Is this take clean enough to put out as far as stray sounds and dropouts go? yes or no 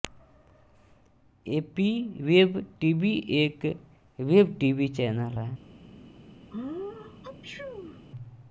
no